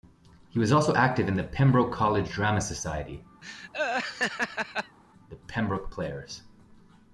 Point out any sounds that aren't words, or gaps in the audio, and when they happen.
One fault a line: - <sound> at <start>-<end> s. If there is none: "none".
- laugh at 3.4-5.0 s